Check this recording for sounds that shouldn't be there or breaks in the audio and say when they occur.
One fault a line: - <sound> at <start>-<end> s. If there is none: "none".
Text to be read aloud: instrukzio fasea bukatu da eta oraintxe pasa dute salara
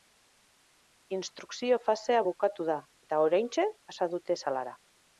none